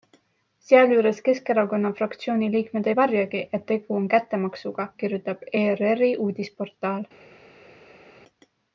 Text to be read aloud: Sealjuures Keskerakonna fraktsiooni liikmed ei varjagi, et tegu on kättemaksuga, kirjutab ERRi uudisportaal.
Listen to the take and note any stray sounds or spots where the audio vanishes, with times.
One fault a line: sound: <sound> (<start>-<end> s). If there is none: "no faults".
no faults